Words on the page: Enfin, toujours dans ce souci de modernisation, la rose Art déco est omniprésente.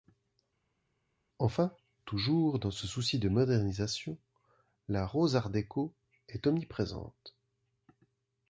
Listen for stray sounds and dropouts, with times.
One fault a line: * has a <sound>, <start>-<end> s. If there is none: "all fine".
all fine